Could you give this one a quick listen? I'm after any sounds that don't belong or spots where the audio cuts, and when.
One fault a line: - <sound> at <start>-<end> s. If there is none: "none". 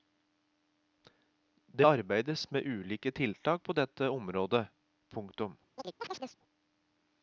- chirp at 5.8-6.4 s